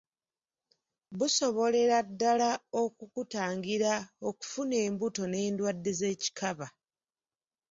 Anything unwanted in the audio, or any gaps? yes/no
no